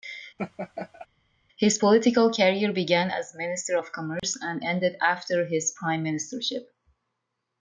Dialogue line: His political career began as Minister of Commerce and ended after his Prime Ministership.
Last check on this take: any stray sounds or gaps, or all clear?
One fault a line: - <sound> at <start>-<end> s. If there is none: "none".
- laugh at 0.4-1.1 s
- dropout at 4.2-4.2 s